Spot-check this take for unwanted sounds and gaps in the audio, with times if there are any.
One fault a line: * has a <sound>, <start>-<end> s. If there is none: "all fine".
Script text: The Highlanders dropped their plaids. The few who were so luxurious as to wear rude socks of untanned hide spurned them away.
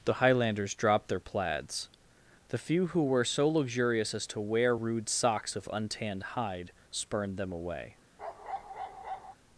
* has a bark, 8.2-9.3 s